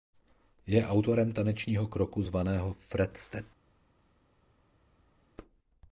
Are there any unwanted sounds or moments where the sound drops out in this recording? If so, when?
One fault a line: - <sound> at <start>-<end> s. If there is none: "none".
none